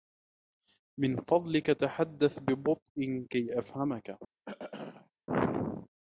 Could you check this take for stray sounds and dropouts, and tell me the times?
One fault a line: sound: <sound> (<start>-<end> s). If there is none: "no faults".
sound: throat clearing (4.5-5.1 s)